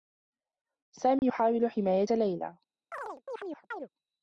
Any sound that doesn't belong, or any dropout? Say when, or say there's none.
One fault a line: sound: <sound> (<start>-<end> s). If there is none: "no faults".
sound: dropout (1.2-1.2 s)
sound: chirp (2.9-3.9 s)